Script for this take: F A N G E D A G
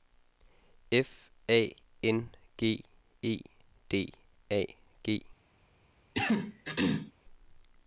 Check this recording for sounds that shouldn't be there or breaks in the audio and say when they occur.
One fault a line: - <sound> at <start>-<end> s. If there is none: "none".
- throat clearing at 6.1-7.1 s